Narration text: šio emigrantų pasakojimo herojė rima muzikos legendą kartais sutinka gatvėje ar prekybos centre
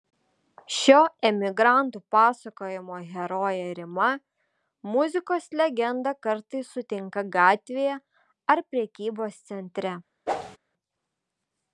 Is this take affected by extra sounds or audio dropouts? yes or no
yes